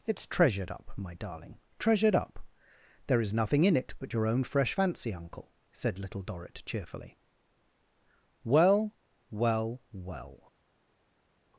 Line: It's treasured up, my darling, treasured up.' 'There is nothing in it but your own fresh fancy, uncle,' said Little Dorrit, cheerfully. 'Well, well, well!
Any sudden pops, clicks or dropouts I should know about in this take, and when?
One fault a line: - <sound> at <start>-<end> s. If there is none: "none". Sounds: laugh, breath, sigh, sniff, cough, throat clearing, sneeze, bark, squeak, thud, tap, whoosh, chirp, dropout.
none